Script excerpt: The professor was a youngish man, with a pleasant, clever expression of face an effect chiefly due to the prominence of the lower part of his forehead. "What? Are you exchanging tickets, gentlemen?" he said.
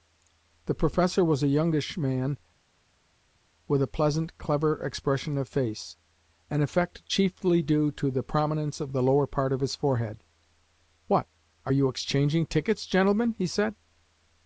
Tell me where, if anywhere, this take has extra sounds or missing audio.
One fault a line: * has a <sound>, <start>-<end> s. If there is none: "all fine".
all fine